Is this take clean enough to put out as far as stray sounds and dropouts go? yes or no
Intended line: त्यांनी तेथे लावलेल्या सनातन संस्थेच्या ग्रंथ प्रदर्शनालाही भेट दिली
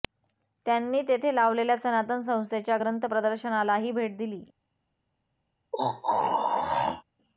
no